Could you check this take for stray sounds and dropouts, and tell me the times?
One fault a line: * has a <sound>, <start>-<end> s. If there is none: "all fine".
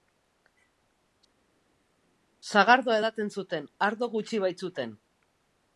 all fine